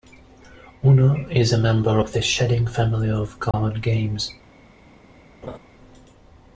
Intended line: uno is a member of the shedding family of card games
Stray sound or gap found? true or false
true